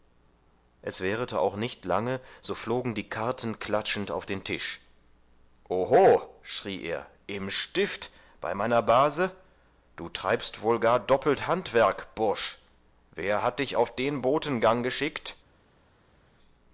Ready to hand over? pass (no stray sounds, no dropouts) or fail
pass